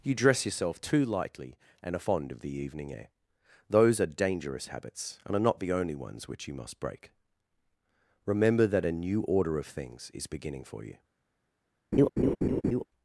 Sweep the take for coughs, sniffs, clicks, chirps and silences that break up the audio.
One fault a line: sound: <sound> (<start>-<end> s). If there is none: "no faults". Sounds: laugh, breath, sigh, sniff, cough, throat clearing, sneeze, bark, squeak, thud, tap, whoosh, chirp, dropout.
sound: laugh (11.9-12.8 s)